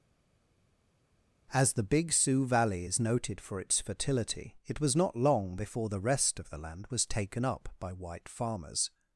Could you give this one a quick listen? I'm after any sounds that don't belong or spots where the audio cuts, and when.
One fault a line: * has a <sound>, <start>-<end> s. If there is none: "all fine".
all fine